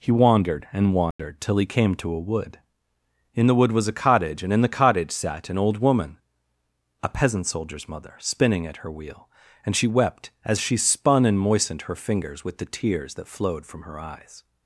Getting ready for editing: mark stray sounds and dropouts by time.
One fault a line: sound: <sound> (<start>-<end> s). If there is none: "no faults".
sound: dropout (1.1-1.2 s)